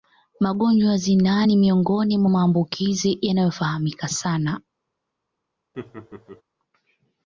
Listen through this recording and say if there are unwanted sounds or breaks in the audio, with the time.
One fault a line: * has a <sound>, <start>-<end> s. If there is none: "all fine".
* has a laugh, 5.7-6.4 s